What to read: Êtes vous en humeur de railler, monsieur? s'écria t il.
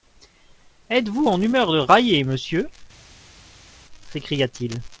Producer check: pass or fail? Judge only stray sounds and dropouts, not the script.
pass